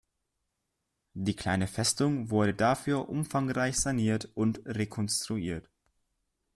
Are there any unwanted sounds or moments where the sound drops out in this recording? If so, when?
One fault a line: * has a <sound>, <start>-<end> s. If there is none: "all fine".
all fine